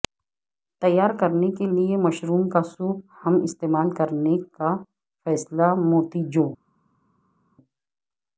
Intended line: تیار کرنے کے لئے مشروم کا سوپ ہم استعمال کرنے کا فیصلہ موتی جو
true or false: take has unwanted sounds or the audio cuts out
false